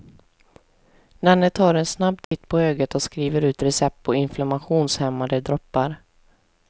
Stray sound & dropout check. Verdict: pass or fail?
fail